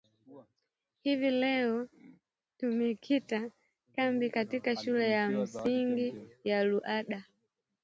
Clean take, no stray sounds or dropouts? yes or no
yes